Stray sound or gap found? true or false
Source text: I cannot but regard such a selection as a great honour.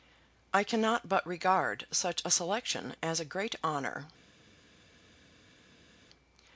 false